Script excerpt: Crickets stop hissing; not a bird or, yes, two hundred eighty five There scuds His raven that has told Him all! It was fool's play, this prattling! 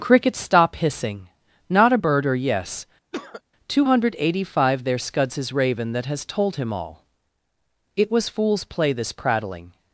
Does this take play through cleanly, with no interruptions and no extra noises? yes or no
no